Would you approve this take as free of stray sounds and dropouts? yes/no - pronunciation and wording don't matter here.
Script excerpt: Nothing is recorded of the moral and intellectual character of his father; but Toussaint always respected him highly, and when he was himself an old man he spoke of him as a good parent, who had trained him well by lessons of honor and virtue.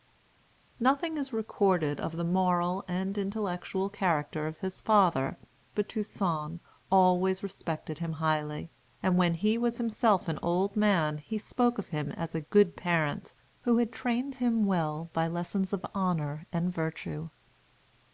yes